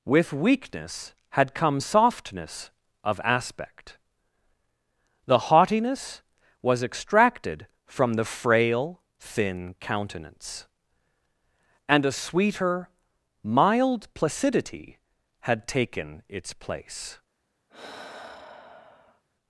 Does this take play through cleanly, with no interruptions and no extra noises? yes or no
no